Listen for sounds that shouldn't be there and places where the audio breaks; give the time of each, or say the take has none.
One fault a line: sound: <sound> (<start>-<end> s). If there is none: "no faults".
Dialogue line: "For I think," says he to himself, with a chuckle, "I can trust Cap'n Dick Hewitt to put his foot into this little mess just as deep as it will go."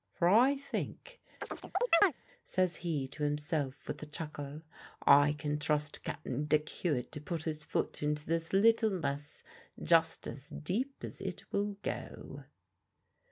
sound: chirp (1.4-2.1 s)